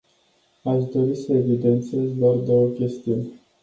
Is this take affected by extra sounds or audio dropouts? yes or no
no